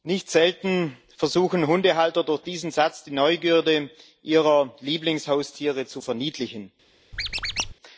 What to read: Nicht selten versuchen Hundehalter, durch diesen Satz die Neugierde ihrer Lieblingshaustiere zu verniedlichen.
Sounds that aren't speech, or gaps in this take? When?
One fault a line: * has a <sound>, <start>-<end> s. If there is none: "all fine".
* has a squeak, 7.1-7.7 s